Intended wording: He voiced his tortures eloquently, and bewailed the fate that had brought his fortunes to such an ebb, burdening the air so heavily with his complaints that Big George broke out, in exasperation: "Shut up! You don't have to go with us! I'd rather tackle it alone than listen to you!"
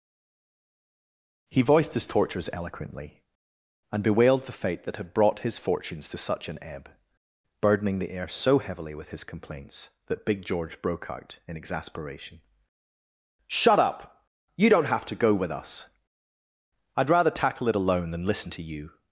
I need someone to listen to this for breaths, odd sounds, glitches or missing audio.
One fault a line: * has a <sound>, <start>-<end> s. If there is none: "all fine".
all fine